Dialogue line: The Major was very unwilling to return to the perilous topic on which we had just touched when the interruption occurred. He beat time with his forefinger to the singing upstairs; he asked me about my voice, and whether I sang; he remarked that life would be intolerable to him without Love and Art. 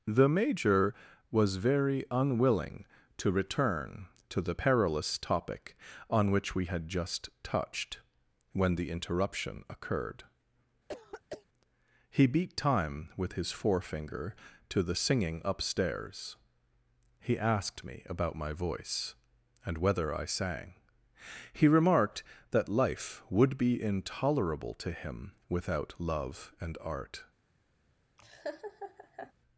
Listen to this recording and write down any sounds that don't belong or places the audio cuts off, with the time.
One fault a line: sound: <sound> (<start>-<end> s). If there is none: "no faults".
sound: throat clearing (10.9-11.4 s)
sound: laugh (28.2-29.3 s)